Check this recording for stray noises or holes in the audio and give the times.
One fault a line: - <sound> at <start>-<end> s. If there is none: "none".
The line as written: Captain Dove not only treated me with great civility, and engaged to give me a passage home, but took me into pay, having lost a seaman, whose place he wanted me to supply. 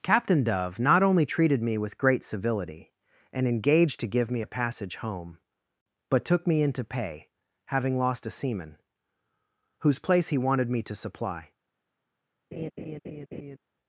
- laugh at 12.5-13.6 s